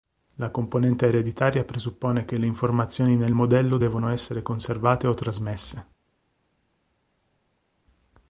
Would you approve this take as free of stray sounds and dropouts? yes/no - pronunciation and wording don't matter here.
yes